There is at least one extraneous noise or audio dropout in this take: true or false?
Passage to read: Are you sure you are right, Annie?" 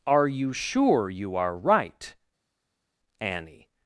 false